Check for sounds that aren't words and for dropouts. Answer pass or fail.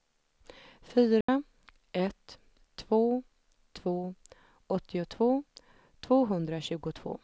fail